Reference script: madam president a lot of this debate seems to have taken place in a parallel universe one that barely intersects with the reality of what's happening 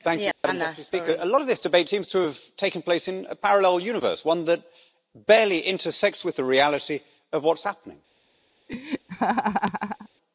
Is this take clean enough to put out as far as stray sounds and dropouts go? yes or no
no